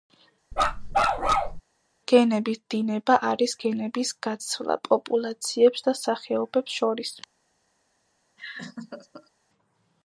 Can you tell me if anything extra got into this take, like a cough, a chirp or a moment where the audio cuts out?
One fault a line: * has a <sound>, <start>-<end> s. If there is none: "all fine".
* has a bark, 0.5-1.6 s
* has a laugh, 8.4-9.3 s